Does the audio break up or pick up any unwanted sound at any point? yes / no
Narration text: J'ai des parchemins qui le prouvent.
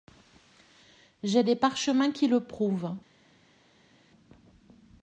no